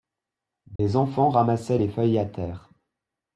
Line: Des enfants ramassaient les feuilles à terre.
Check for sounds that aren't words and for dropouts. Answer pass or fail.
fail